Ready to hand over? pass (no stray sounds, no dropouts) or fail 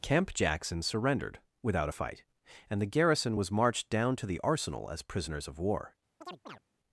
fail